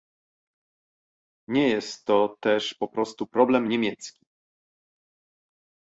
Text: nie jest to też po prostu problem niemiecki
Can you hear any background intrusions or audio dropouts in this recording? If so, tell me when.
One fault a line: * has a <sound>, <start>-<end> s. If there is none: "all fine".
all fine